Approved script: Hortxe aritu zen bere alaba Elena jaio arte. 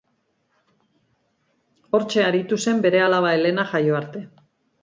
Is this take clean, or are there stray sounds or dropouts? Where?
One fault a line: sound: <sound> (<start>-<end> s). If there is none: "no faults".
no faults